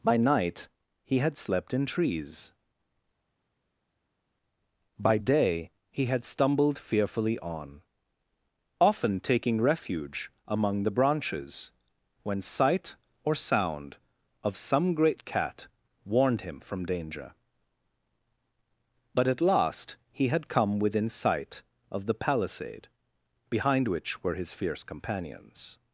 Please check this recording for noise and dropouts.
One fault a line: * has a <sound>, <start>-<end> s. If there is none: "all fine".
all fine